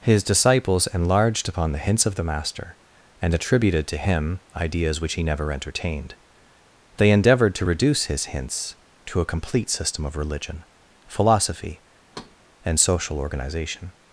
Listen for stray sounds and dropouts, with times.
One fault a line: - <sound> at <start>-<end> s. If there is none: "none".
- thud at 12.1-12.4 s